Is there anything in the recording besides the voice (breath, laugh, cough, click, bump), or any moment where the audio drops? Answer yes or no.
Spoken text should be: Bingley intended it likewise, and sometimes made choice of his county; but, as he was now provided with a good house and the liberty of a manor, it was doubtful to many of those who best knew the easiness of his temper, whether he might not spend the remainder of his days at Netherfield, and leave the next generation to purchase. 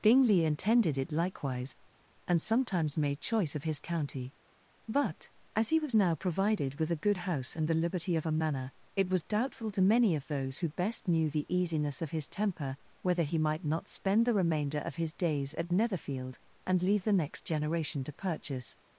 no